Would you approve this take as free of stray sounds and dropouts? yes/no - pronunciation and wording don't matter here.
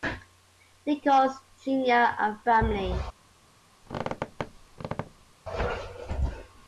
no